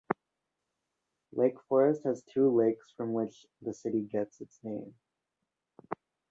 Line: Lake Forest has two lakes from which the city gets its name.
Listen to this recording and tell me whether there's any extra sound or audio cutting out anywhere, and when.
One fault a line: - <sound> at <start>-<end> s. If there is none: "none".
none